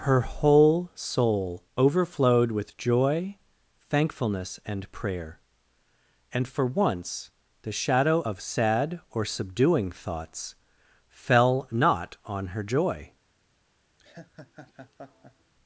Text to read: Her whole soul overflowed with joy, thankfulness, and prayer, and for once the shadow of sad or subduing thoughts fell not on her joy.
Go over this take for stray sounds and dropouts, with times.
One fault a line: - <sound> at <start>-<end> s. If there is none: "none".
- laugh at 14.0-15.5 s